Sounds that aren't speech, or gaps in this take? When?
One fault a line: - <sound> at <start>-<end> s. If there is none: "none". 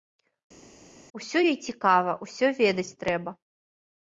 none